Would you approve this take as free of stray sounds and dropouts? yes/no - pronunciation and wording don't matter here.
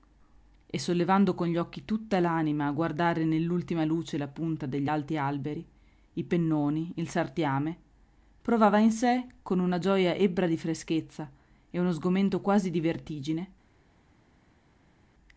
yes